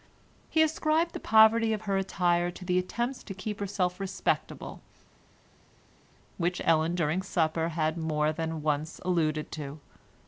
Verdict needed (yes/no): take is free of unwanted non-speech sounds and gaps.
yes